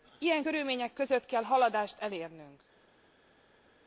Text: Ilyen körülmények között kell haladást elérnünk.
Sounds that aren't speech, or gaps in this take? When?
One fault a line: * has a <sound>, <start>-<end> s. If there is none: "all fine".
all fine